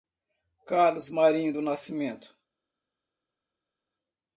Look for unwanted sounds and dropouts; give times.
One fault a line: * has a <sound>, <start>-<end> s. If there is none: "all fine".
all fine